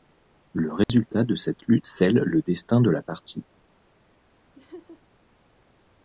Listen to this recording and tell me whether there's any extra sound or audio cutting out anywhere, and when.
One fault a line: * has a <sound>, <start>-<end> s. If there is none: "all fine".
* has a dropout, 0.8-0.9 s
* has a laugh, 4.6-5.0 s